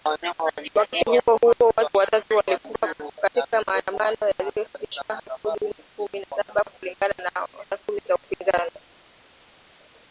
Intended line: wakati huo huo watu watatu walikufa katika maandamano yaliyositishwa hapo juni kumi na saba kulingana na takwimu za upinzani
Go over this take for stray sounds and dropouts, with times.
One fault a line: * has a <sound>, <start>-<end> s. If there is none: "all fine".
all fine